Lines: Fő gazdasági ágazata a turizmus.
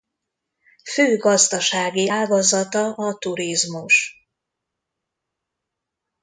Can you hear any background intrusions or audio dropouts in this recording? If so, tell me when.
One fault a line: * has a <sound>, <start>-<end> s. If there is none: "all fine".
all fine